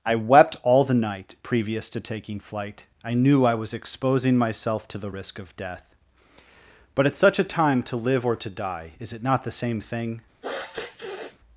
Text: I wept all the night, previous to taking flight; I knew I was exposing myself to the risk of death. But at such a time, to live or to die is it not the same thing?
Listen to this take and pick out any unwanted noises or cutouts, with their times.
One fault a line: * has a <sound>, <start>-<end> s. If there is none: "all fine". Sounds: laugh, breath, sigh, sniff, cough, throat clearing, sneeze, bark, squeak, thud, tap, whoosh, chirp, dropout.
* has a sniff, 10.4-11.4 s